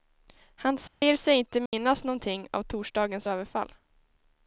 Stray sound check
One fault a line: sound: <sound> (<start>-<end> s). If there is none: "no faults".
sound: dropout (0.9-1.0 s)
sound: dropout (1.7-1.7 s)